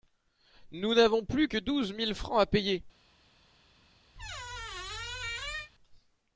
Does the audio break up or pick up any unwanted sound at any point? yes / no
yes